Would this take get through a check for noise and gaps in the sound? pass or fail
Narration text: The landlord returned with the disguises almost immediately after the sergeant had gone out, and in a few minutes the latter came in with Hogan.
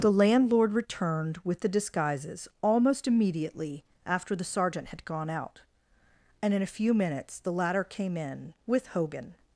pass